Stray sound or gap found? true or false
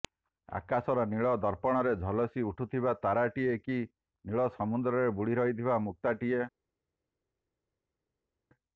false